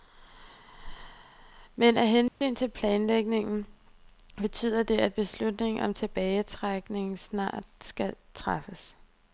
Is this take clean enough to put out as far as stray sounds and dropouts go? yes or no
no